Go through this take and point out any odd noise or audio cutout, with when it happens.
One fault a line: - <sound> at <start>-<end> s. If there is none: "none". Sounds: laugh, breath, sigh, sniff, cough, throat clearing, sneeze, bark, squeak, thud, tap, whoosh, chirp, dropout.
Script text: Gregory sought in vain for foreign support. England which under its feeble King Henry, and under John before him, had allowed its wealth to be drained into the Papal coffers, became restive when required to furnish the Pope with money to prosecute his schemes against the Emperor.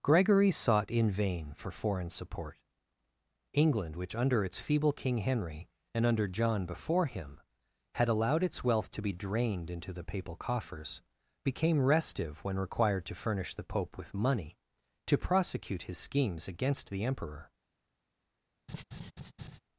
- laugh at 18.7-19.6 s